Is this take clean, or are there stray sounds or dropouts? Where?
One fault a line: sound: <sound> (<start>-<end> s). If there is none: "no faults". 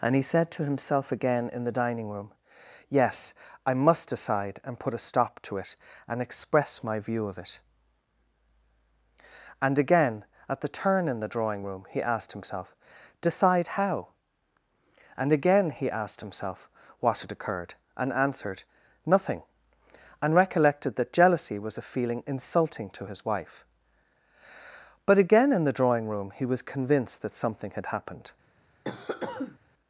sound: cough (28.8-29.6 s)